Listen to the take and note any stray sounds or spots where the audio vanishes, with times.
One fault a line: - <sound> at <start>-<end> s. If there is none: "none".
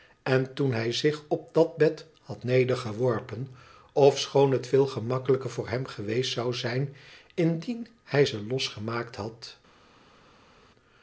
none